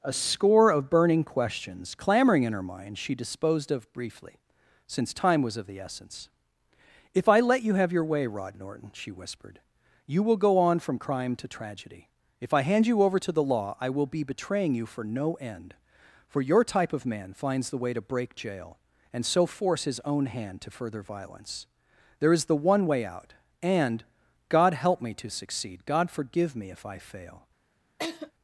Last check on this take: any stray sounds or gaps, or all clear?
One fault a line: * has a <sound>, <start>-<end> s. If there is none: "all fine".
* has a laugh, 28.0-28.3 s